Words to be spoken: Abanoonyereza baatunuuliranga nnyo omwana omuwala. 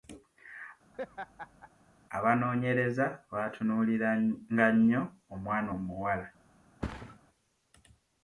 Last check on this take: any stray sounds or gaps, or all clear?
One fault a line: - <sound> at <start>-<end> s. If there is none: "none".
- laugh at 0.9-1.7 s
- thud at 6.8-7.2 s